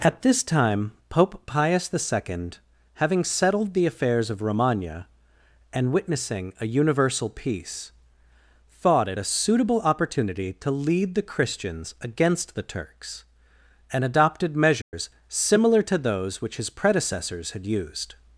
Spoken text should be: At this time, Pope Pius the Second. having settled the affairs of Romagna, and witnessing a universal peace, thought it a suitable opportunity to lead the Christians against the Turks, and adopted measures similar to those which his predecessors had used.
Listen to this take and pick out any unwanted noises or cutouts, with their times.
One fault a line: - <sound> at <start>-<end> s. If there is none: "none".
- dropout at 14.8-14.9 s